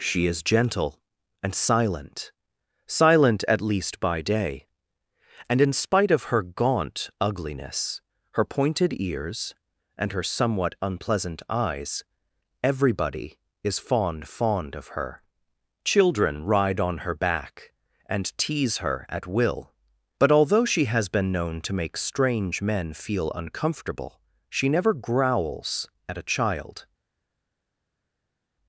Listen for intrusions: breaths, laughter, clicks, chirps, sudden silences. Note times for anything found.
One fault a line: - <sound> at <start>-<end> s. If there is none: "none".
none